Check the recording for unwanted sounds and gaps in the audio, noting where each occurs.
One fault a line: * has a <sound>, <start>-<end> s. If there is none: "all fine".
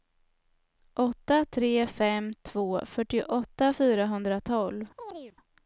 * has a chirp, 5.0-5.4 s